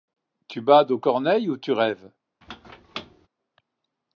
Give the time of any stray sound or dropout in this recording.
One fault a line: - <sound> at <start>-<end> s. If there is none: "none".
- squeak at 2.4-3.3 s